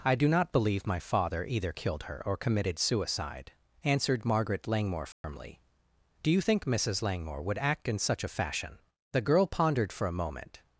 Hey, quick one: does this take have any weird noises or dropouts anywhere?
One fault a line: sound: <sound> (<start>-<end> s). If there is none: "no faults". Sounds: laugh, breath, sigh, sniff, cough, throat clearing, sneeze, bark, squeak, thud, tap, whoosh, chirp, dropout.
sound: dropout (5.1-5.2 s)